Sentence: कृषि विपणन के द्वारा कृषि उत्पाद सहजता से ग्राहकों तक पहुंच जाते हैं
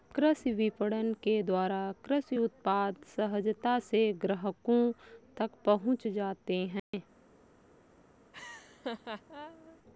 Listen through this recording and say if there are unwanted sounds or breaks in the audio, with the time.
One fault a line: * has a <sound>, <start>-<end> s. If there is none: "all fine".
* has a dropout, 6.8-6.9 s
* has a laugh, 8.3-9.8 s